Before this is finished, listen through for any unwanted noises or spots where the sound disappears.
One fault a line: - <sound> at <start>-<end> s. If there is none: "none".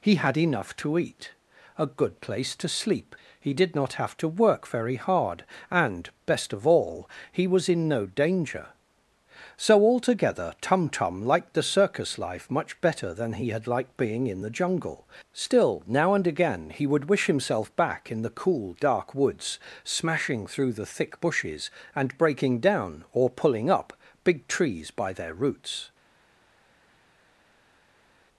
none